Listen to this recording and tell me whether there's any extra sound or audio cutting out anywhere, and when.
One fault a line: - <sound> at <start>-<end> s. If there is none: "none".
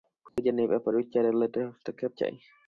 - dropout at 0.3-0.4 s